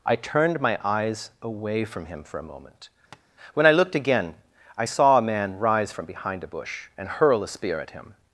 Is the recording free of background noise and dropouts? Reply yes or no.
no